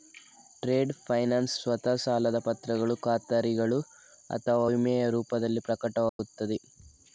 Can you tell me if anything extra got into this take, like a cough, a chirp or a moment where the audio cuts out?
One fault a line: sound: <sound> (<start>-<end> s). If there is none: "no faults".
sound: dropout (6.1-6.2 s)